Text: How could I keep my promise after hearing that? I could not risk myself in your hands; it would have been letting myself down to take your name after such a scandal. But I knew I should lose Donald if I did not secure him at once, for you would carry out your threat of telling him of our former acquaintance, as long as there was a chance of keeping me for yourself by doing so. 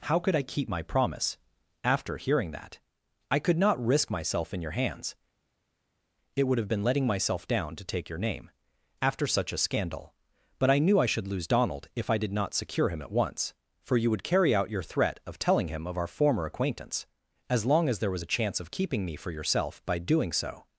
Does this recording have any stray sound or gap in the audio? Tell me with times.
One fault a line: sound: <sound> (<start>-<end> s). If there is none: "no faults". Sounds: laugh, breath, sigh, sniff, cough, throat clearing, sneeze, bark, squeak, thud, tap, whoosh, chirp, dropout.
no faults